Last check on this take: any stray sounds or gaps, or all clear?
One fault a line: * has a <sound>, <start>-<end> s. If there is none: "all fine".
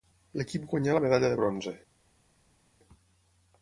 all fine